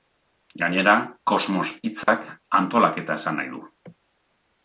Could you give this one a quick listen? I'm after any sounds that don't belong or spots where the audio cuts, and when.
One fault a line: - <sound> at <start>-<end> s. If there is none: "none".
- dropout at 2.0-2.1 s